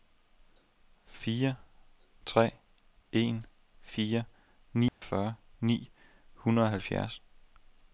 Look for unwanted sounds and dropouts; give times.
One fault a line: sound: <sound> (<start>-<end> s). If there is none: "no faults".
sound: dropout (4.9-5.0 s)